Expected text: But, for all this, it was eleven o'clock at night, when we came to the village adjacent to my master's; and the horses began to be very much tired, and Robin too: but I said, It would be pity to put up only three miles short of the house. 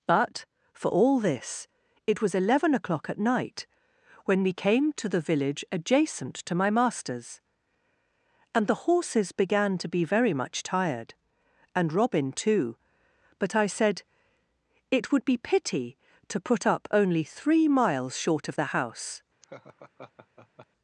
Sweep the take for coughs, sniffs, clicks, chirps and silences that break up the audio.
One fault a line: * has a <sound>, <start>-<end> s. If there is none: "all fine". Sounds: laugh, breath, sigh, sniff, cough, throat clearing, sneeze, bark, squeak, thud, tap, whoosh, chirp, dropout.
* has a laugh, 19.4-20.7 s